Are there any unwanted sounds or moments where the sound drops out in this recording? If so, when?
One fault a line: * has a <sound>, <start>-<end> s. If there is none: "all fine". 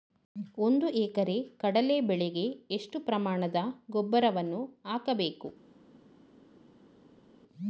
all fine